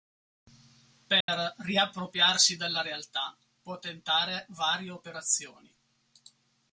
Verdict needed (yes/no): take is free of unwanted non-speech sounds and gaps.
no